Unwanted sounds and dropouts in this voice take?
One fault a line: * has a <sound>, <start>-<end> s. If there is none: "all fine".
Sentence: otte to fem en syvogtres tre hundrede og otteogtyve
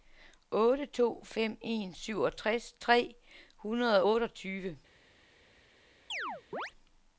* has a chirp, 6.1-6.7 s